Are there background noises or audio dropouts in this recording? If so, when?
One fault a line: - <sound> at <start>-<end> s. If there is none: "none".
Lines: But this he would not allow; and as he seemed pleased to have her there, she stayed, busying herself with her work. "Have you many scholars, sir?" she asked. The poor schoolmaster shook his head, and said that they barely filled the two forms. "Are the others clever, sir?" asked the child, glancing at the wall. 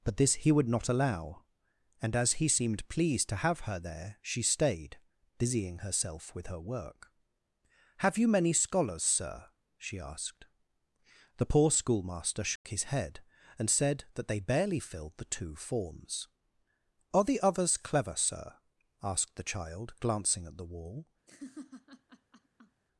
- dropout at 12.6-12.6 s
- laugh at 21.3-22.8 s